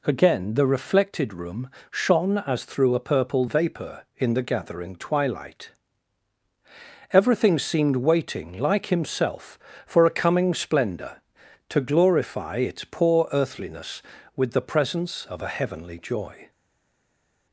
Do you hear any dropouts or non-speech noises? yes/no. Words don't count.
no